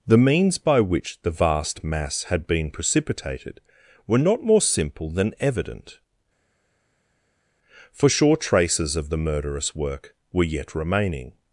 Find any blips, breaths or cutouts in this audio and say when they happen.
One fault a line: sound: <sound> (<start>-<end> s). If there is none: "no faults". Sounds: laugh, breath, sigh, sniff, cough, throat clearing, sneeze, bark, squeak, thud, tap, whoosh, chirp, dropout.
no faults